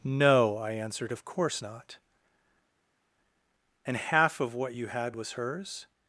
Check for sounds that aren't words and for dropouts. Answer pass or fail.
pass